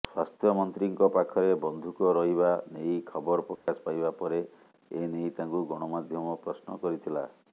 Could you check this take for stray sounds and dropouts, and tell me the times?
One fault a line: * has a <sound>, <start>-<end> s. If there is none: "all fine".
* has a dropout, 3.6-3.7 s